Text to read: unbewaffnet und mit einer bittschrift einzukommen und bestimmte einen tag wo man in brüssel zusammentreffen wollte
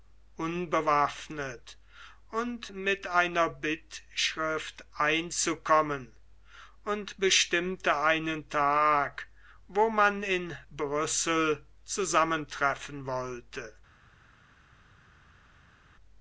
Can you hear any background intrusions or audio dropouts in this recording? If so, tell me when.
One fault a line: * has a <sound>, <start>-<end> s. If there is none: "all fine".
all fine